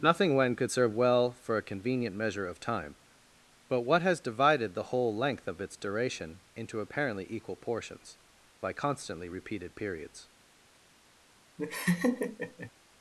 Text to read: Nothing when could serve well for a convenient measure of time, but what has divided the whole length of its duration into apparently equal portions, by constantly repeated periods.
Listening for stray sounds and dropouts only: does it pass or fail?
fail